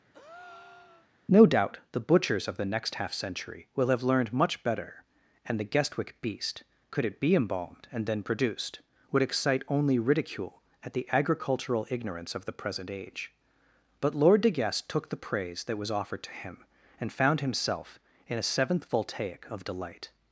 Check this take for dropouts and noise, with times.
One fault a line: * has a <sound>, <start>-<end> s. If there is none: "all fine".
* has a breath, 0.1-1.1 s